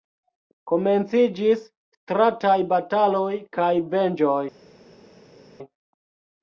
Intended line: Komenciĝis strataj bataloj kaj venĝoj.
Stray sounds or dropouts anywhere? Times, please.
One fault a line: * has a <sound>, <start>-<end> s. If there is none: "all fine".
all fine